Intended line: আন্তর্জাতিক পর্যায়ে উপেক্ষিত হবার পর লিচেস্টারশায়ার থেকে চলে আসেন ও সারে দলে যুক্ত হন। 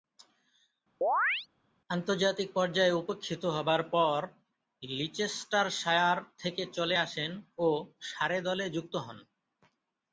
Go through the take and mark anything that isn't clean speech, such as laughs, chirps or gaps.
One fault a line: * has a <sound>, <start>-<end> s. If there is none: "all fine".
* has a chirp, 1.0-1.5 s